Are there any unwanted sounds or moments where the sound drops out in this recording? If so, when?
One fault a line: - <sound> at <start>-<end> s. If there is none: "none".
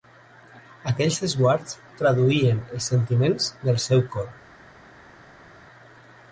none